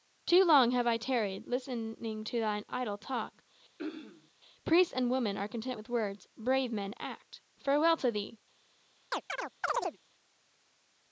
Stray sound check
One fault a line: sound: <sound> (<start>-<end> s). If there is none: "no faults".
sound: throat clearing (3.8-4.3 s)
sound: chirp (9.1-10.0 s)